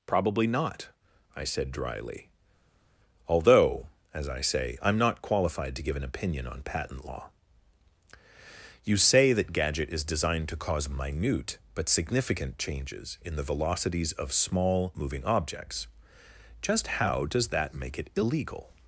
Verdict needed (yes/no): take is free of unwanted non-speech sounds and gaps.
yes